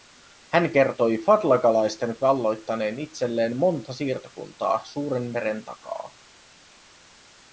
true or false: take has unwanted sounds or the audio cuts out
false